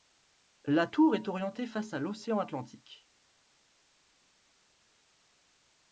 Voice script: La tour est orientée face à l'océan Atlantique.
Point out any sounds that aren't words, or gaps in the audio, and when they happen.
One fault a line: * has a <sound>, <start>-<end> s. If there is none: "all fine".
all fine